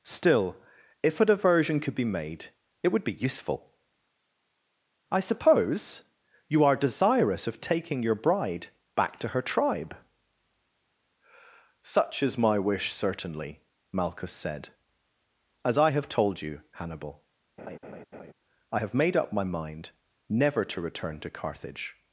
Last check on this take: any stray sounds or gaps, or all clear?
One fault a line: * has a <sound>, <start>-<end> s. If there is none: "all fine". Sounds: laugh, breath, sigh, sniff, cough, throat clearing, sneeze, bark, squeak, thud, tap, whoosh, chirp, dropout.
* has a laugh, 17.6-18.3 s